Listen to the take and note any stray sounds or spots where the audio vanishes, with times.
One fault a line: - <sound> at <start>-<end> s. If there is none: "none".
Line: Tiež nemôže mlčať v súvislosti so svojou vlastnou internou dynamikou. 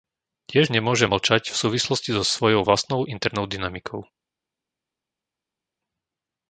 none